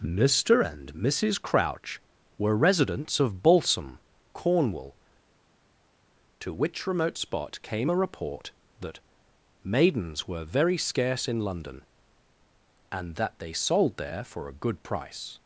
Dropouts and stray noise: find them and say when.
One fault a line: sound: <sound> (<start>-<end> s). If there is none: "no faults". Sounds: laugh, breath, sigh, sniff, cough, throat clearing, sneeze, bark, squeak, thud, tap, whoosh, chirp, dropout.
no faults